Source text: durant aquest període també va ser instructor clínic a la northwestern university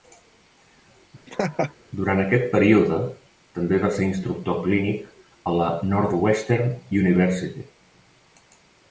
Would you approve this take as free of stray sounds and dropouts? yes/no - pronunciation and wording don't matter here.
no